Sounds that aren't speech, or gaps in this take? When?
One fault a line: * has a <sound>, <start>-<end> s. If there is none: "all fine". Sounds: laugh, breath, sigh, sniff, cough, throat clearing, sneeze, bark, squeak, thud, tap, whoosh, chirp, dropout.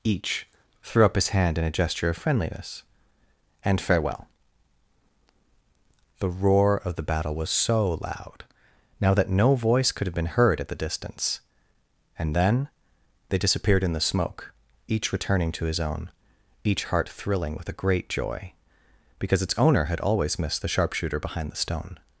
all fine